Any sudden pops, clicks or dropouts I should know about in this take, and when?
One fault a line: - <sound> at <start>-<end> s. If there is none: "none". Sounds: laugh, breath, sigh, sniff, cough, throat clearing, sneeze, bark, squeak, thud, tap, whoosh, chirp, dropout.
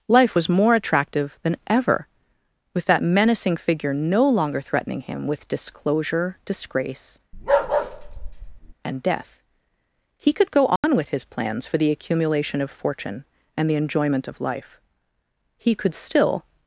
- bark at 7.3-8.7 s
- dropout at 10.8-10.8 s